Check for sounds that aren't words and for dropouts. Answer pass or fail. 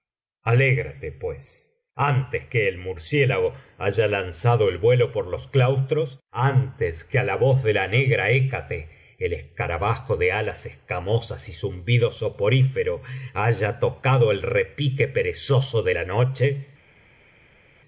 pass